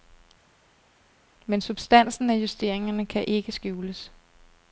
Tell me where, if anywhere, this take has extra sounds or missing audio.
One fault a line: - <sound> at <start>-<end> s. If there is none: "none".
none